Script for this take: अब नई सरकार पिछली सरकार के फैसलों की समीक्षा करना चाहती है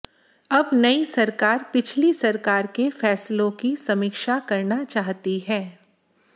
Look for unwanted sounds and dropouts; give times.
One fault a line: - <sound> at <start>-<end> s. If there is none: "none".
none